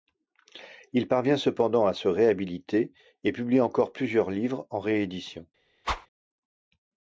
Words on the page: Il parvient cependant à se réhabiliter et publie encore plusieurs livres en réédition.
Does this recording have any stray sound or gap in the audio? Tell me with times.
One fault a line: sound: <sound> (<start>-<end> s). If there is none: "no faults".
sound: whoosh (5.8-6.1 s)